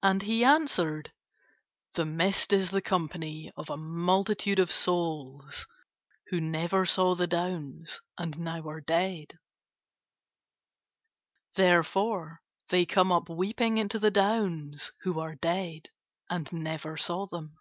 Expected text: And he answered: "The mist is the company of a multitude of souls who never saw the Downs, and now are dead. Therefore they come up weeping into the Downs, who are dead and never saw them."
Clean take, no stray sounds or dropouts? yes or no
yes